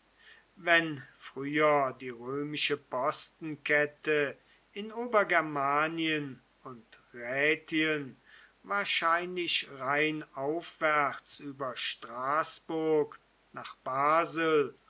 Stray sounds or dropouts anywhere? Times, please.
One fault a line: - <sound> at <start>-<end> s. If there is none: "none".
none